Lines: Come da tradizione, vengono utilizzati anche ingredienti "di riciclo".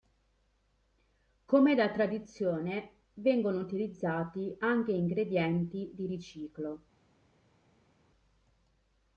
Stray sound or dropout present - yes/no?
no